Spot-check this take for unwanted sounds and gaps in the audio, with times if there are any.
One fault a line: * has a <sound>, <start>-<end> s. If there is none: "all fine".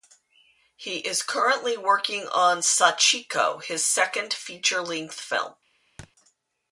* has a thud, 6.0-6.1 s